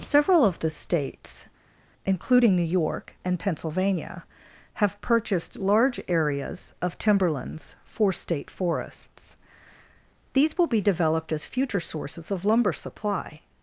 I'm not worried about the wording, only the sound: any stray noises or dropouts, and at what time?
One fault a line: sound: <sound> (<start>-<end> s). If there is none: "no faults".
no faults